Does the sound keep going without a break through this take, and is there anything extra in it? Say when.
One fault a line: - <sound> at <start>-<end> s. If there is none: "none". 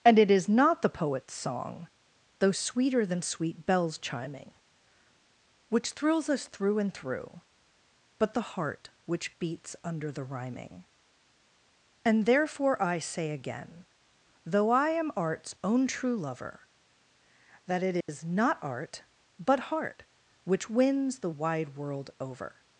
- dropout at 18.0-18.1 s